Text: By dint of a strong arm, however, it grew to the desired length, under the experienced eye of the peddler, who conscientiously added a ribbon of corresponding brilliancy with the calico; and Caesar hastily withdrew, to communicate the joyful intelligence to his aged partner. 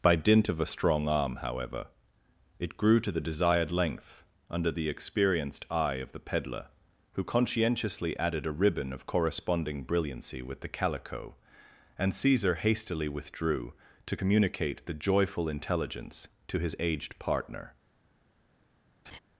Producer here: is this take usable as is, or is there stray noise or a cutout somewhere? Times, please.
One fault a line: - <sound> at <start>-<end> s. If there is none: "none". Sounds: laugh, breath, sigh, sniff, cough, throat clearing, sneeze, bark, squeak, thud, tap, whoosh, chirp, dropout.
- laugh at 19.0-19.2 s